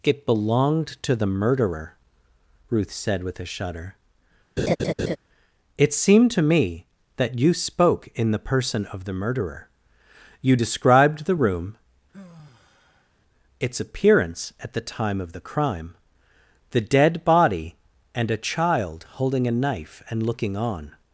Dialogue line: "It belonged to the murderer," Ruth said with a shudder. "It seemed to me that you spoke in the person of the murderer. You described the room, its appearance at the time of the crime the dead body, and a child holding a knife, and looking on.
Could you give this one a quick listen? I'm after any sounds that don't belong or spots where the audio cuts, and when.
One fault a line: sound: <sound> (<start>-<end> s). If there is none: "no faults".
sound: laugh (4.6-5.2 s)
sound: sigh (12.1-13.1 s)